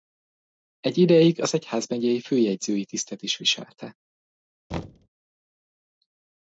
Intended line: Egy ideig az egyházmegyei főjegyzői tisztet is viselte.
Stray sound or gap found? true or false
true